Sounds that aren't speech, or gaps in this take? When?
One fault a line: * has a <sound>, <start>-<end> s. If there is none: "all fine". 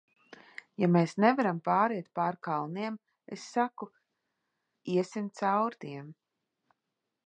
all fine